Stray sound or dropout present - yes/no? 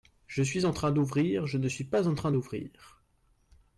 no